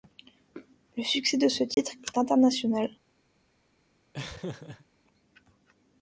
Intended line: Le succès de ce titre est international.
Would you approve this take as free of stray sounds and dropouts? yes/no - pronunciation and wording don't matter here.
no